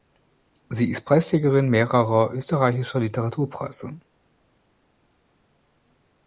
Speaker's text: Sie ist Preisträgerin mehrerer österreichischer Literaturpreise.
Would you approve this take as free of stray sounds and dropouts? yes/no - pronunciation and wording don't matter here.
yes